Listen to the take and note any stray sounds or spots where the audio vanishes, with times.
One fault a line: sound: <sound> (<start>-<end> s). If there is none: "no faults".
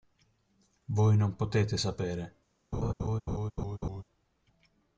sound: laugh (2.7-4.0 s)